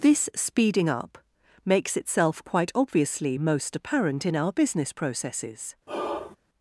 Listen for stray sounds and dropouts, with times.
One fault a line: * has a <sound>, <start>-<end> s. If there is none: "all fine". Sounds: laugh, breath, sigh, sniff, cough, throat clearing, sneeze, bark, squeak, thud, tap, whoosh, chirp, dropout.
* has a sigh, 5.9-6.4 s